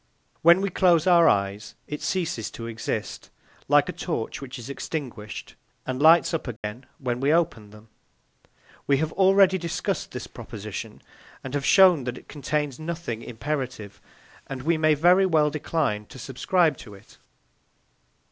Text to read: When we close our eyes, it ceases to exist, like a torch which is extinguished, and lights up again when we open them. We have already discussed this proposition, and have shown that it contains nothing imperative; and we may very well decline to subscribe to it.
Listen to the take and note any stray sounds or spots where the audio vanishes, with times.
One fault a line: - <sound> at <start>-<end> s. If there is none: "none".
- dropout at 6.6-6.6 s